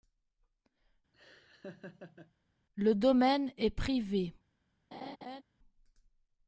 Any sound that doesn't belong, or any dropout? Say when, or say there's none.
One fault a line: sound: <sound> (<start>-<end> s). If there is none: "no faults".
sound: laugh (1.1-2.3 s)
sound: laugh (4.9-5.4 s)